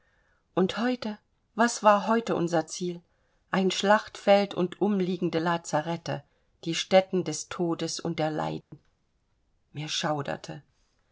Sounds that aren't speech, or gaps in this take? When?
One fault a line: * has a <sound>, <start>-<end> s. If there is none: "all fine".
* has a dropout, 8.6-8.7 s